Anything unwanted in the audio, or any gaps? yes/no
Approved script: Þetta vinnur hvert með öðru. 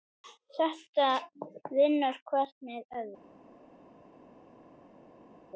no